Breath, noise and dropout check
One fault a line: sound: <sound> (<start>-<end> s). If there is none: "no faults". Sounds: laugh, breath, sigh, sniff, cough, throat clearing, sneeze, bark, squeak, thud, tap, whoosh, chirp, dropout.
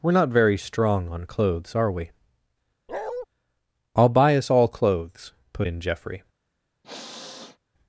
sound: bark (2.9-3.3 s)
sound: sniff (6.8-7.6 s)